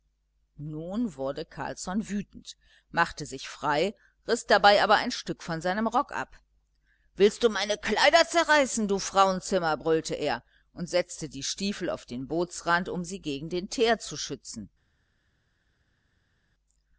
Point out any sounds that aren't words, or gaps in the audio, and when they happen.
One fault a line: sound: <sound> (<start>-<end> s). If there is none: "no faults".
no faults